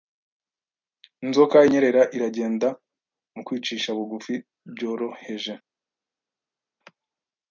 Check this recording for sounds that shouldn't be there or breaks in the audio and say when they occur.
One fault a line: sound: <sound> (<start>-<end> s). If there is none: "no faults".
no faults